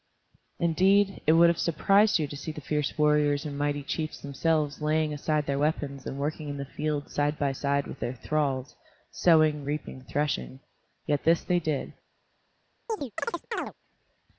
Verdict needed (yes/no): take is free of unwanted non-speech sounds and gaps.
no